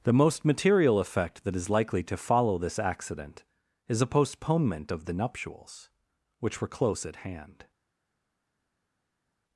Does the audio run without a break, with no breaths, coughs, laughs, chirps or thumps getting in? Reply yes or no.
yes